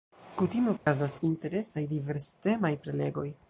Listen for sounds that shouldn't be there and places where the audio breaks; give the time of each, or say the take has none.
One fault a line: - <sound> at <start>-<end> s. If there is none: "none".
- dropout at 0.8-0.9 s